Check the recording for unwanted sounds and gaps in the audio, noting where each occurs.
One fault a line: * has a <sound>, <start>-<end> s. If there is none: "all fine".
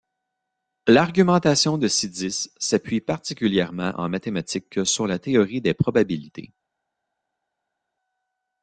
all fine